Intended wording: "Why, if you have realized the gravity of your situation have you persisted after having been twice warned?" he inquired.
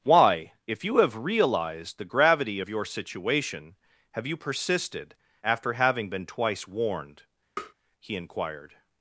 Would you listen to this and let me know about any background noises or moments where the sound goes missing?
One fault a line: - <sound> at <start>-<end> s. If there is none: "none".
- tap at 7.6-7.7 s